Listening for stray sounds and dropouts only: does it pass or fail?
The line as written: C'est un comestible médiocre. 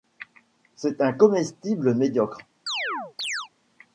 fail